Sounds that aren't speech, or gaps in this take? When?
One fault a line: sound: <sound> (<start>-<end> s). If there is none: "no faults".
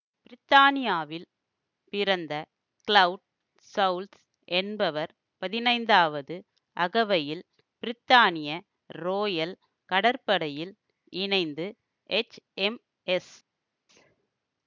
no faults